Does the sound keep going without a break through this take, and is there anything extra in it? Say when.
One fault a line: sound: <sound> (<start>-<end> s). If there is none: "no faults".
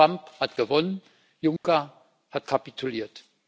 sound: dropout (1.6-1.6 s)